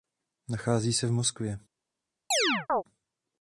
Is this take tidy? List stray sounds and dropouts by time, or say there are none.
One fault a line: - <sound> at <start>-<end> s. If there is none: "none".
- chirp at 2.3-2.8 s